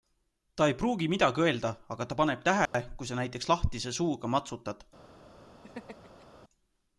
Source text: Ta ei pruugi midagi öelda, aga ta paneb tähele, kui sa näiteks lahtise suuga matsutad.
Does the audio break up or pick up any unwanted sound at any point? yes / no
yes